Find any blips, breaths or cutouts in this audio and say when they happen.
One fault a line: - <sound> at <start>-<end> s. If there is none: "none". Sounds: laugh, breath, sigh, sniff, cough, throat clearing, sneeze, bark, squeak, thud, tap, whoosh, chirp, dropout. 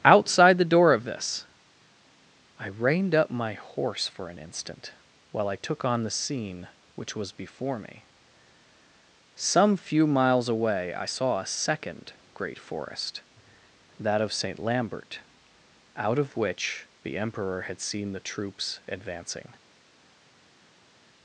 none